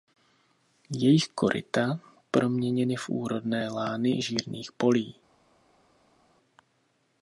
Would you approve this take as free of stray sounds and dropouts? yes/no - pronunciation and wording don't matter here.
yes